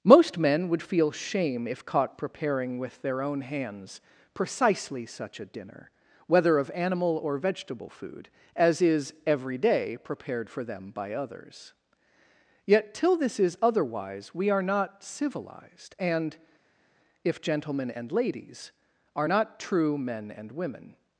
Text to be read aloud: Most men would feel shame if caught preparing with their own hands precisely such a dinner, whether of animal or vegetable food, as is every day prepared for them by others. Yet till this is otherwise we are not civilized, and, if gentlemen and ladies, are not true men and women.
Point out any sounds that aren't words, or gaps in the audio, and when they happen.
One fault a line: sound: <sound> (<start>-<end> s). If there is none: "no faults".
no faults